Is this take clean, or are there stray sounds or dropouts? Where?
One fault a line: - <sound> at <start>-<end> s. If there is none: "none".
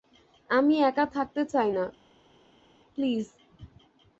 none